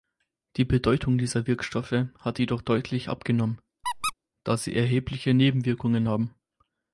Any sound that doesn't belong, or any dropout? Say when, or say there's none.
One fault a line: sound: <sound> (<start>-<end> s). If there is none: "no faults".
sound: squeak (3.8-4.1 s)